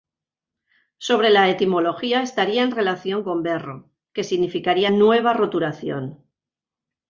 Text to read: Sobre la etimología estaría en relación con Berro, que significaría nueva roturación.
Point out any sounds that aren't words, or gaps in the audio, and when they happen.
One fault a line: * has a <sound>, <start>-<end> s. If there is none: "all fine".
all fine